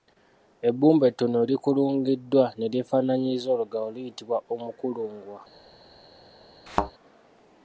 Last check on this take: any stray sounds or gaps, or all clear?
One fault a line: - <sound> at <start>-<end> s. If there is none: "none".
- thud at 6.7-6.9 s